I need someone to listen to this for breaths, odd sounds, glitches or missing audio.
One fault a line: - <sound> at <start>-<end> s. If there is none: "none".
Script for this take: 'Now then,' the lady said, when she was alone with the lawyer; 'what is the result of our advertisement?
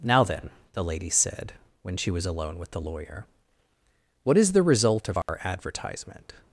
- dropout at 5.2-5.3 s